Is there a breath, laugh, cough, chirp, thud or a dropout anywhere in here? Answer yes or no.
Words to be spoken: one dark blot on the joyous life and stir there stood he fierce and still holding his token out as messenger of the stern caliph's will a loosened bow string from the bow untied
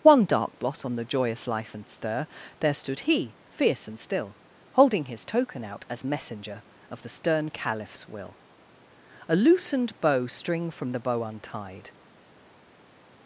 no